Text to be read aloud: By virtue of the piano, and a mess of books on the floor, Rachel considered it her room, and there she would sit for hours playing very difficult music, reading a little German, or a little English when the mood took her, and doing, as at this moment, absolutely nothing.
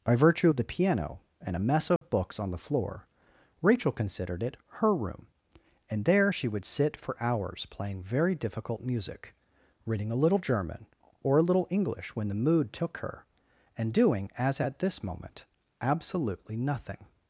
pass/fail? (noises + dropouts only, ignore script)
fail